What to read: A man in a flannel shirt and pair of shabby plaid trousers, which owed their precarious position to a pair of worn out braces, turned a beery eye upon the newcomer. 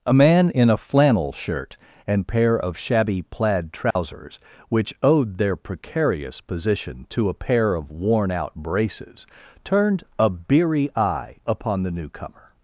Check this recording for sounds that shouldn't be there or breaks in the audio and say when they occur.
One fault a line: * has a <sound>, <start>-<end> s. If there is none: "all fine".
* has a dropout, 3.9-4.0 s